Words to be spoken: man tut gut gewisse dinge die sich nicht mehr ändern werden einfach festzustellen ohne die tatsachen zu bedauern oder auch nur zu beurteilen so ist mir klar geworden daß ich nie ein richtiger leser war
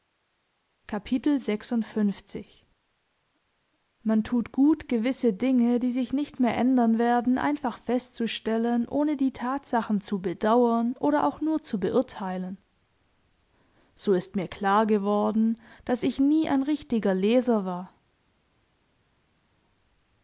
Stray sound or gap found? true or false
false